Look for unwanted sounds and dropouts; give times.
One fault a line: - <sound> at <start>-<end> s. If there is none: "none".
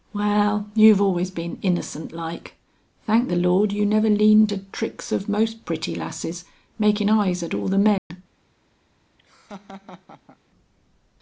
- dropout at 8.0-8.1 s
- laugh at 9.2-10.4 s